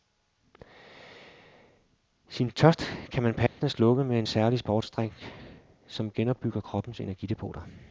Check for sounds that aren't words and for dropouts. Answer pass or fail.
fail